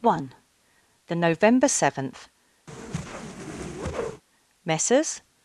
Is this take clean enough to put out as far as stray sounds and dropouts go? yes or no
no